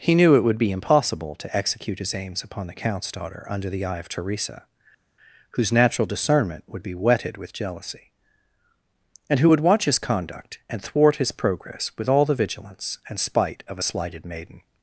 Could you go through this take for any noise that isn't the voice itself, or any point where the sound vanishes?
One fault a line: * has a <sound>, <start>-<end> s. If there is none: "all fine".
all fine